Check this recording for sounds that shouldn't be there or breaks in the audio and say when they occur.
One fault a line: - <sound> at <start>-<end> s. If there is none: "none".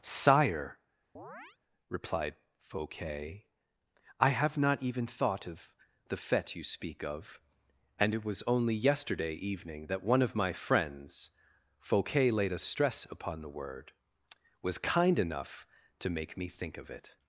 - chirp at 1.2-1.6 s